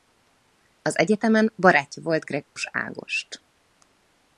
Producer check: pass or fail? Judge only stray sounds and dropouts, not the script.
fail